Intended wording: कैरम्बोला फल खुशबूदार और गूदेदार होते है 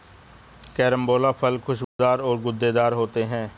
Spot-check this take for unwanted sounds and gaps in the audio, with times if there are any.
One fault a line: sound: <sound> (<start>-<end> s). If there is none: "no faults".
sound: dropout (1.8-2.0 s)